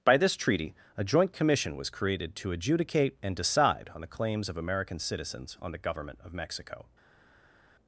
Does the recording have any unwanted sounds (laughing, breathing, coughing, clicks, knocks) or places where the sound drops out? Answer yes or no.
no